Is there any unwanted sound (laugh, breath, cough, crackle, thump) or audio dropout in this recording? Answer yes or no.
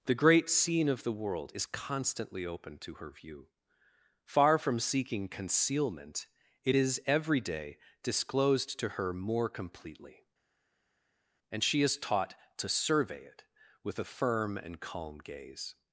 no